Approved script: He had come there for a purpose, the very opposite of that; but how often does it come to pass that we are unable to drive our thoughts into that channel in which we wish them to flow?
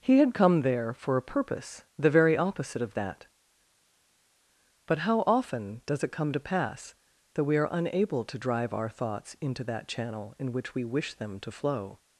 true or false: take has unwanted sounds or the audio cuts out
false